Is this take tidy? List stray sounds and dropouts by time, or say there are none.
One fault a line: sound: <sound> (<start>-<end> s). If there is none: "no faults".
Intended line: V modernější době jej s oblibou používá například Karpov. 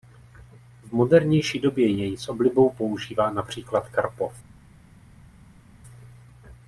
no faults